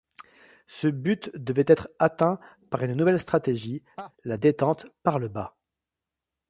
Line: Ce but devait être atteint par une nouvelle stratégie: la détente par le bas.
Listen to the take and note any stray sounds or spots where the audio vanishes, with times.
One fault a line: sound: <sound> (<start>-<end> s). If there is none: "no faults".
sound: laugh (4.0-4.1 s)